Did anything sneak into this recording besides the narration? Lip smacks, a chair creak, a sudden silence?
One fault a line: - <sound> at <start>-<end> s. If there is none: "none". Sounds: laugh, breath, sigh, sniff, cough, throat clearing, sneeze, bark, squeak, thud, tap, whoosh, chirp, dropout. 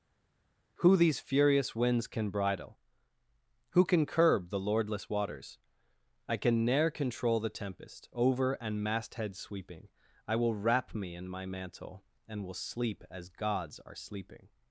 none